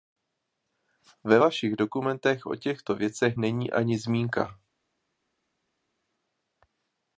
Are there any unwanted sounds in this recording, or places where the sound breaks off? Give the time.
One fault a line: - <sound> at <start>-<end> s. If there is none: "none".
none